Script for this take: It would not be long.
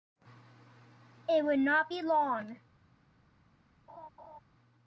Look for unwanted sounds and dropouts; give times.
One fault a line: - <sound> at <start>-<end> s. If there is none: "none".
- laugh at 3.9-4.4 s